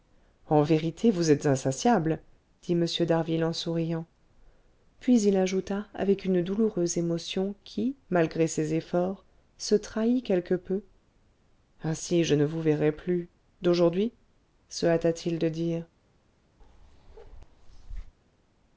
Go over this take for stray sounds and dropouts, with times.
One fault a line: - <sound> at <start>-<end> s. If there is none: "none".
- bark at 16.6-18.1 s